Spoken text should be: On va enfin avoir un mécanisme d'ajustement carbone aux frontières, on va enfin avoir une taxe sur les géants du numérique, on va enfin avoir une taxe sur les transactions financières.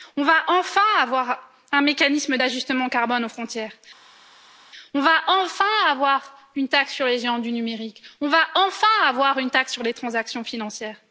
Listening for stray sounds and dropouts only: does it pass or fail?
pass